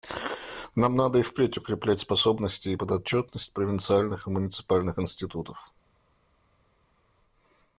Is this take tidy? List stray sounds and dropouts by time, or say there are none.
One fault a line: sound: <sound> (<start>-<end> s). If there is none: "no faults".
no faults